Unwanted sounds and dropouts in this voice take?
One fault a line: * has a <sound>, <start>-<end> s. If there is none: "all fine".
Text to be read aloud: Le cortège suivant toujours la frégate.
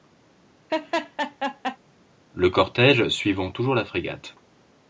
* has a laugh, 0.7-1.8 s